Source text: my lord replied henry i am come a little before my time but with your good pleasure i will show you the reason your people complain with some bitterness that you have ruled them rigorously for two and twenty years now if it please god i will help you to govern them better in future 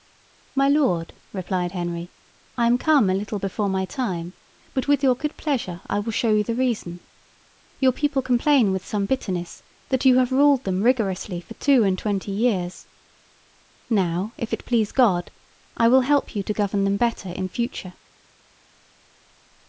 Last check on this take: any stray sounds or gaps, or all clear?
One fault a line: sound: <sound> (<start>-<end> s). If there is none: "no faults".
no faults